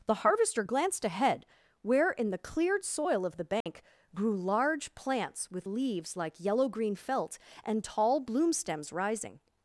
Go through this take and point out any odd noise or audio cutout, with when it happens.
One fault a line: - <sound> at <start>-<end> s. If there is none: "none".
- dropout at 3.6-3.7 s